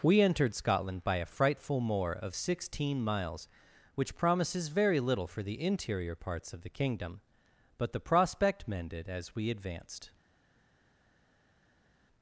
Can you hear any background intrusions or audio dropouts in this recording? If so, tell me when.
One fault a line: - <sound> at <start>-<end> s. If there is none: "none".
none